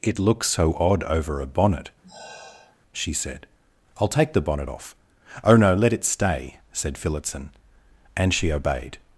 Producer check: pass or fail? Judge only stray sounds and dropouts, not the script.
fail